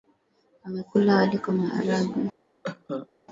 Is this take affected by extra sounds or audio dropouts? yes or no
yes